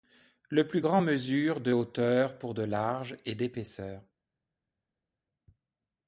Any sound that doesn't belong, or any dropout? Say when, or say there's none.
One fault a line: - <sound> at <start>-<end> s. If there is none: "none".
none